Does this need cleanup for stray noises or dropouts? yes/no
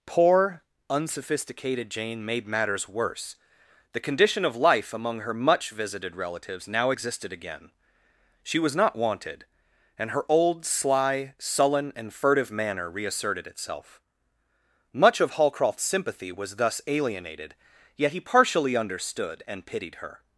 no